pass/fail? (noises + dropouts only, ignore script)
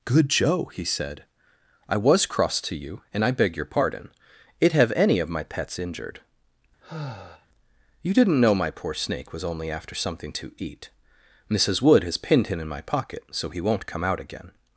fail